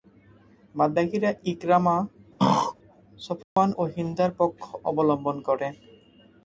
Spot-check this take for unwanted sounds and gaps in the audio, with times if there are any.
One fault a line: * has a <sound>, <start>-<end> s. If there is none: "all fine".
* has a throat clearing, 2.4-2.8 s
* has a dropout, 3.4-3.6 s